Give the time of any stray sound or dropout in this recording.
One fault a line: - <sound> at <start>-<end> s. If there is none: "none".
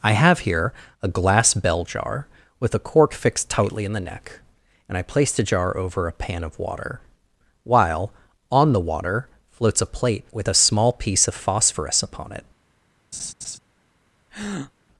- laugh at 13.1-13.6 s
- breath at 14.3-14.7 s